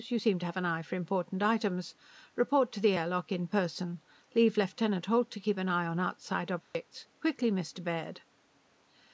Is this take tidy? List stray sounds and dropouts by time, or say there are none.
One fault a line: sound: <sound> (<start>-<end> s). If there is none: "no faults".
sound: dropout (6.6-6.7 s)